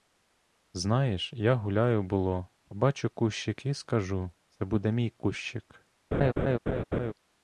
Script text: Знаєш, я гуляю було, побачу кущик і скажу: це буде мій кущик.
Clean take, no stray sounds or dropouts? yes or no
no